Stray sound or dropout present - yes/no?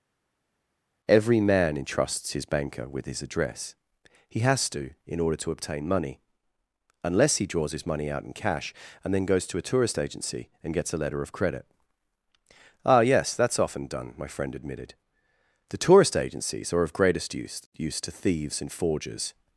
no